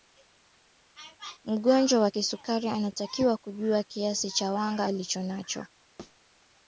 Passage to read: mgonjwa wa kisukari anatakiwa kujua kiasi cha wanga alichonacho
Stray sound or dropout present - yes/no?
yes